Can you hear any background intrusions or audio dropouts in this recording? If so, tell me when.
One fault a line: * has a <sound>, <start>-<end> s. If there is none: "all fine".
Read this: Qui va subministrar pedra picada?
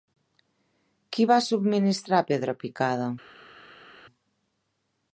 all fine